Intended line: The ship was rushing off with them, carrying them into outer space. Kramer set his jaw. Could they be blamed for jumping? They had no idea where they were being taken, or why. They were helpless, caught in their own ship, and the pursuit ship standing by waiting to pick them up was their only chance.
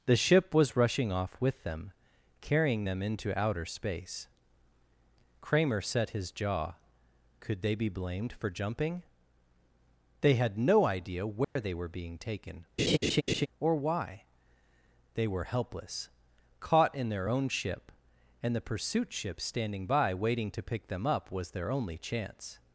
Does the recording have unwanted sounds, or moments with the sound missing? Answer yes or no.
yes